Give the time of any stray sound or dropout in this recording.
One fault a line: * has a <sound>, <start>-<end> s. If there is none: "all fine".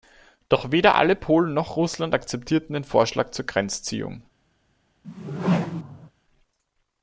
* has a whoosh, 5.0-6.1 s